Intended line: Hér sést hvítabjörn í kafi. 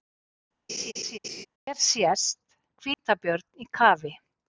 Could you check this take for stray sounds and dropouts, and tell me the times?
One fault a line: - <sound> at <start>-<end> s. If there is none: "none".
- laugh at 0.7-1.5 s
- dropout at 2.9-3.0 s